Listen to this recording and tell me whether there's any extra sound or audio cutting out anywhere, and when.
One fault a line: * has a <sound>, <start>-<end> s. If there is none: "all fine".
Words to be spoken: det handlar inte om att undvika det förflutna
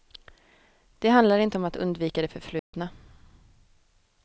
* has a dropout, 2.6-2.7 s